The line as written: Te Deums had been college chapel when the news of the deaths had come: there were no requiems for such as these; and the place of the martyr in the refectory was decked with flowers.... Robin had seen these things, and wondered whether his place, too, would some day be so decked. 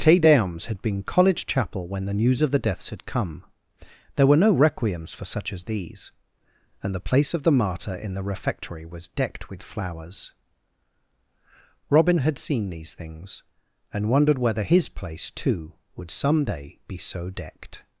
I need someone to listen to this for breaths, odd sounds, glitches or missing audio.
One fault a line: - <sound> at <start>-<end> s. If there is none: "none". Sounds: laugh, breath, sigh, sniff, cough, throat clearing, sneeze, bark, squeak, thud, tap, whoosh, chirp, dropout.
none